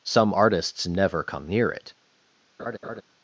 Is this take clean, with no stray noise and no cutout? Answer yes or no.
no